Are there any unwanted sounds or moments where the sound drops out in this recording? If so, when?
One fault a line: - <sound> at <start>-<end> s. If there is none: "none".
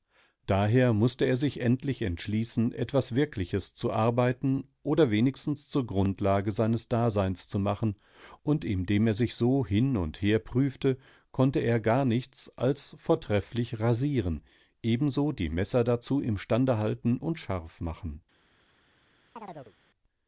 - chirp at 19.4-19.7 s